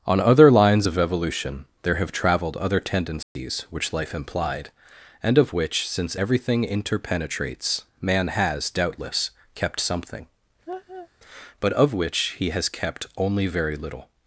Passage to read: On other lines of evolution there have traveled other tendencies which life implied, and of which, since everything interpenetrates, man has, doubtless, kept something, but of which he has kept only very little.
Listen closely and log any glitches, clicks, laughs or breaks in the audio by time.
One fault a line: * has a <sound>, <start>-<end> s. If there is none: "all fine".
* has a dropout, 3.2-3.4 s
* has a laugh, 10.7-11.1 s